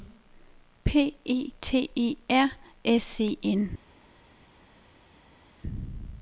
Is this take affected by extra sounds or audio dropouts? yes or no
no